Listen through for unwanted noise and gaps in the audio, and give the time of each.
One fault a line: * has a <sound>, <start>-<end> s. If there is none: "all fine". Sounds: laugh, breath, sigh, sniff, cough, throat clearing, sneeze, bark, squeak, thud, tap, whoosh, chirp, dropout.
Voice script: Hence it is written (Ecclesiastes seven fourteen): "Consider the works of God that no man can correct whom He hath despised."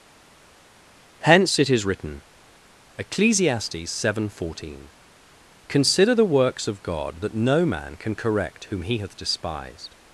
all fine